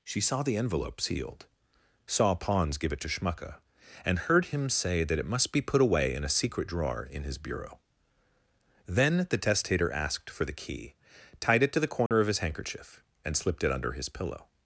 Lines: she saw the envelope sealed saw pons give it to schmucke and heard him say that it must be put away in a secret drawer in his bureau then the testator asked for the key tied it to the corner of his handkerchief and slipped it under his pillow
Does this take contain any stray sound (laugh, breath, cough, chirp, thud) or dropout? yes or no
yes